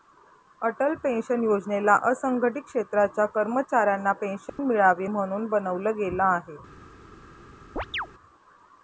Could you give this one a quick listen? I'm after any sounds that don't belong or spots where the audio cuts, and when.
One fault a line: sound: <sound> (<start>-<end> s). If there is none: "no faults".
sound: dropout (4.5-4.6 s)
sound: chirp (7.8-8.1 s)